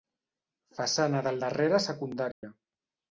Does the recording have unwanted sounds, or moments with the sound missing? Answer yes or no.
yes